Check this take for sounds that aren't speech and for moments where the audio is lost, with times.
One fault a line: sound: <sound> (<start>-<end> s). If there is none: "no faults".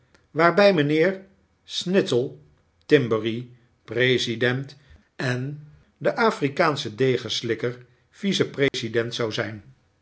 sound: dropout (8.7-8.7 s)